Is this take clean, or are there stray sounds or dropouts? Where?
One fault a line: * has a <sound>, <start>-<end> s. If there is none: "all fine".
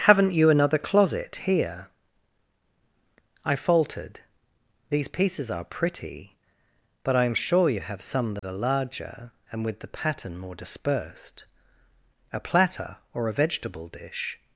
* has a dropout, 8.4-8.4 s